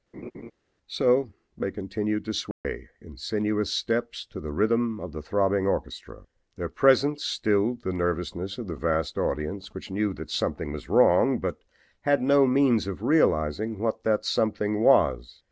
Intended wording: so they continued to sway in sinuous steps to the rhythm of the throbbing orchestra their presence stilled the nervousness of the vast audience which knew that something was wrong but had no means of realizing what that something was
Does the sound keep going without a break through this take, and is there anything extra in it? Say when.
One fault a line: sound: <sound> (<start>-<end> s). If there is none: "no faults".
sound: laugh (0.1-0.5 s)
sound: dropout (2.5-2.6 s)